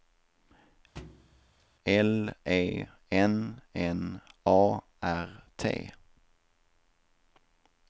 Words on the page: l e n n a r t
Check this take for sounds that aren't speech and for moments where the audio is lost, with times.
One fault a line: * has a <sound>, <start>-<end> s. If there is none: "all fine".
* has a thud, 1.0-1.7 s